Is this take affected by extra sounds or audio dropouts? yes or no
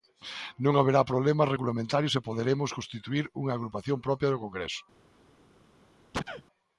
yes